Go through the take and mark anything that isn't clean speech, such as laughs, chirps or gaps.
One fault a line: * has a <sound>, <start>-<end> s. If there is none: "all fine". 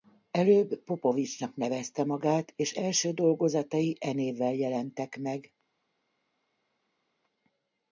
all fine